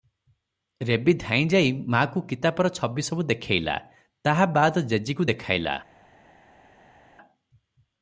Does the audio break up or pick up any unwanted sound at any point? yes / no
no